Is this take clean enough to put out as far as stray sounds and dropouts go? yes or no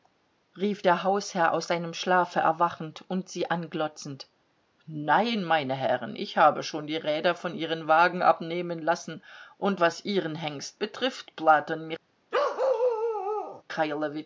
no